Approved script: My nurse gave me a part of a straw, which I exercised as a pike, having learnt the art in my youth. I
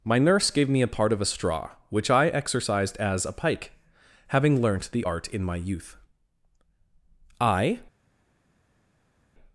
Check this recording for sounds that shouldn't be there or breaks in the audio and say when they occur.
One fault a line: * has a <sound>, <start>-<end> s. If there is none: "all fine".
all fine